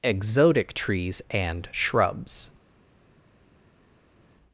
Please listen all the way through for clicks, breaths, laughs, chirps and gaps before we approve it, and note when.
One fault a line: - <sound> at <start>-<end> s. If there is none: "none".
none